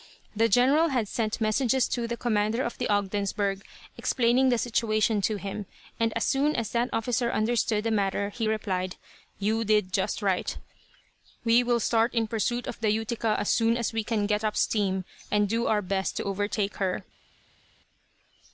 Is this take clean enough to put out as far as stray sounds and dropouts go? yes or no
yes